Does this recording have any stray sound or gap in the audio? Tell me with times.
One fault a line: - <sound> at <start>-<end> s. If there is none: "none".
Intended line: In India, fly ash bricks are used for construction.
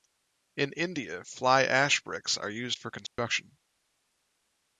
- dropout at 3.1-3.2 s